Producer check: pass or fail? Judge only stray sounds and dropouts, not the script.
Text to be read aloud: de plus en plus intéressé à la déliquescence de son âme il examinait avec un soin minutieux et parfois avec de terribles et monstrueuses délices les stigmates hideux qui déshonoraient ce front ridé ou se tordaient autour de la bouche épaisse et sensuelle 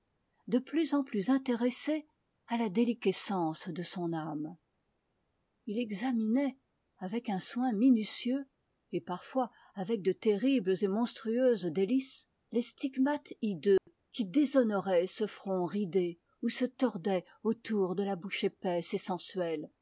fail